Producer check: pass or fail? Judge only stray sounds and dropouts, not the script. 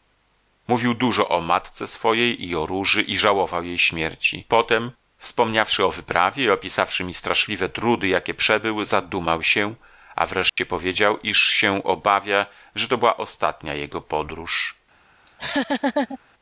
fail